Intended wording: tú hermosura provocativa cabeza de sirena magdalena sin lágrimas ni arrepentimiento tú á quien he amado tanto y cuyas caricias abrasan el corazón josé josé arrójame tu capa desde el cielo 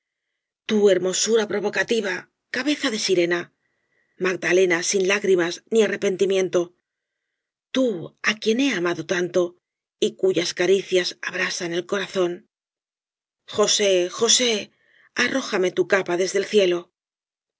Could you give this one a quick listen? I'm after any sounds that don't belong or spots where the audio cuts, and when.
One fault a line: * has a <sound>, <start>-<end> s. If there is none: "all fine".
all fine